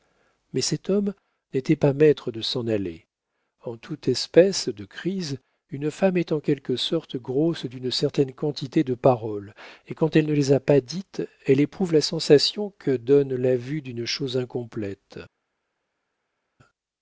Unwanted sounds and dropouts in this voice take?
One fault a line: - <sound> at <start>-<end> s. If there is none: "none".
none